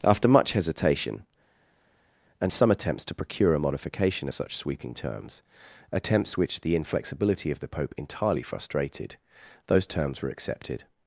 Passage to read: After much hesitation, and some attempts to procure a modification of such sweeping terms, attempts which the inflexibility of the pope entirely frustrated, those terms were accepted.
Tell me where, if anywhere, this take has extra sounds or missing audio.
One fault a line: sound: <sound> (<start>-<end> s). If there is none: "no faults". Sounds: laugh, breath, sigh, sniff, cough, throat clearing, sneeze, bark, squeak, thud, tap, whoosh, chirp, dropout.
no faults